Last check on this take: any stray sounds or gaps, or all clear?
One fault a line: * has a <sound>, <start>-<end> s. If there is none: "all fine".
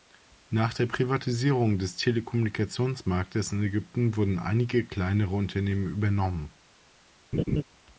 * has a laugh, 7.3-7.6 s